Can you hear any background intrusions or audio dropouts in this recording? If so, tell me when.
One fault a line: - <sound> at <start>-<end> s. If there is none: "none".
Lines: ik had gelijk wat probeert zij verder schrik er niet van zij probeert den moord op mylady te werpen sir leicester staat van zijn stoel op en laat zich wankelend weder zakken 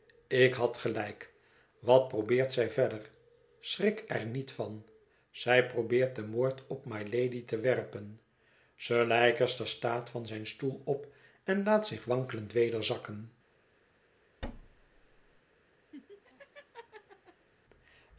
- thud at 14.4-15.4 s
- laugh at 15.9-17.5 s